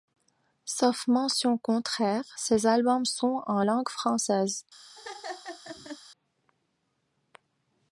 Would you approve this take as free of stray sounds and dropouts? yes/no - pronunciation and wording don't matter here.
no